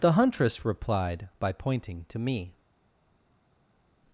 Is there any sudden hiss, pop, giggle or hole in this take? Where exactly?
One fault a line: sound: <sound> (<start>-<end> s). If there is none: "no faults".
no faults